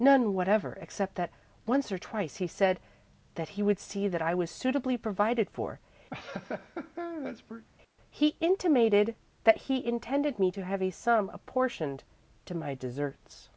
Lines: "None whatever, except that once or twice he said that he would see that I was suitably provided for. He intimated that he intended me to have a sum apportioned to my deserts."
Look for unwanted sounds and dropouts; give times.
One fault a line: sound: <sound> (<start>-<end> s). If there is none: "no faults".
sound: laugh (6.1-7.7 s)